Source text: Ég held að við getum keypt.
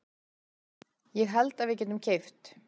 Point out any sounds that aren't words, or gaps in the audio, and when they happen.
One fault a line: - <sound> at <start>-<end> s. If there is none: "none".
none